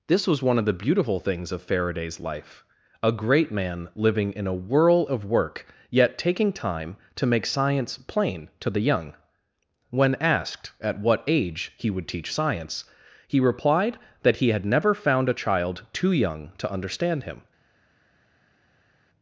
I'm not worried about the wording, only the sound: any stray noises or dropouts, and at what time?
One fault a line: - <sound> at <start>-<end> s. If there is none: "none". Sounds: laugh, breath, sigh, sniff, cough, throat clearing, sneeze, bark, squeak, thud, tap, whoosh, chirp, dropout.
none